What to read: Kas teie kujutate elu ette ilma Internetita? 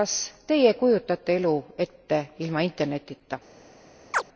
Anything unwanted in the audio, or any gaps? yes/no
yes